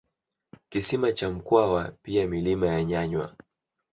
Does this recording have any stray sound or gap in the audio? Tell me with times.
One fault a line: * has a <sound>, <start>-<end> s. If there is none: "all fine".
all fine